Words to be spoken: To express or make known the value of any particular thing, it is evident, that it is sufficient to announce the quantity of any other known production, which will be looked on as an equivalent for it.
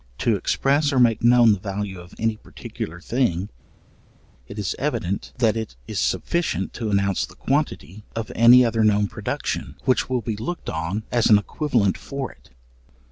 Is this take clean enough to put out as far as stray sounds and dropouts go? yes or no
yes